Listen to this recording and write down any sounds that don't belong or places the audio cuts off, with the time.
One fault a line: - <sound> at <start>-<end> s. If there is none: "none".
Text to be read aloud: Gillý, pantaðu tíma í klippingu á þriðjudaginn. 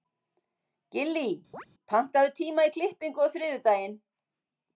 - chirp at 1.5-1.7 s